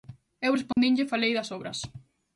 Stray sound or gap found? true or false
true